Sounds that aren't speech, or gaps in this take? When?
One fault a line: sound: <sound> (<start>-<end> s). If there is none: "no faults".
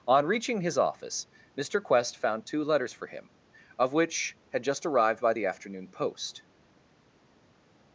no faults